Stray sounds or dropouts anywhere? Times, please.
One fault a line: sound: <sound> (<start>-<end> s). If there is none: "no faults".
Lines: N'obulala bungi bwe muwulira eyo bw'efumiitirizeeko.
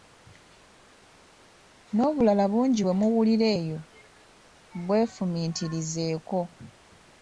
no faults